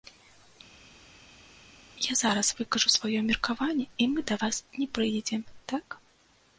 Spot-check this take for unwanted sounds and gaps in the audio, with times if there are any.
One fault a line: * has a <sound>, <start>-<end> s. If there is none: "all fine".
all fine